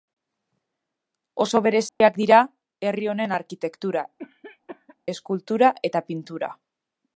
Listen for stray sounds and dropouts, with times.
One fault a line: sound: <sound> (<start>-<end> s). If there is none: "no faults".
sound: dropout (1.9-2.0 s)
sound: cough (4.2-5.0 s)